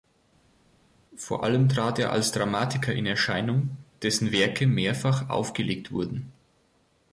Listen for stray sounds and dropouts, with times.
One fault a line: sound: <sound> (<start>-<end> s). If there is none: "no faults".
no faults